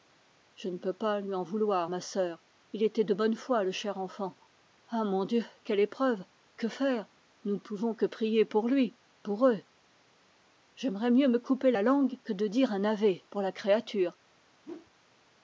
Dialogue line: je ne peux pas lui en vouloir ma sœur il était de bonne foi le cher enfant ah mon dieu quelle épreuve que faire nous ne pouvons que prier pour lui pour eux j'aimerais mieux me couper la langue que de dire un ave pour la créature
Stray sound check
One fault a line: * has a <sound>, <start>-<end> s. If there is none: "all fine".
* has a whoosh, 14.6-14.9 s